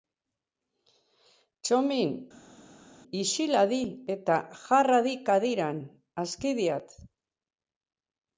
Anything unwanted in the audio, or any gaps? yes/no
no